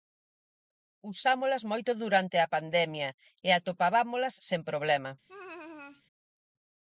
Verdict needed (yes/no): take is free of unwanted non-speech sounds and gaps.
no